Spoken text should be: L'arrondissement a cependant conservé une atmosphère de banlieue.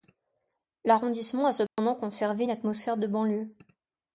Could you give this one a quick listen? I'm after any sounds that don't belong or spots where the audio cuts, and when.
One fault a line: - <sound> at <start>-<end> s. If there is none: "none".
- dropout at 1.7-1.8 s